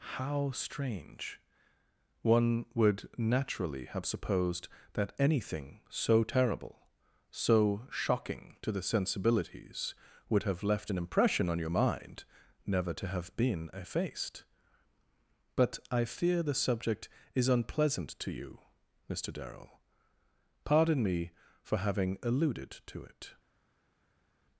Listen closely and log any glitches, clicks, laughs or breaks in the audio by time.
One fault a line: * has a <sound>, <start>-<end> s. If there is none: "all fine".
all fine